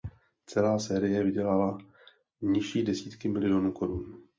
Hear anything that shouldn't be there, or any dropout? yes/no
no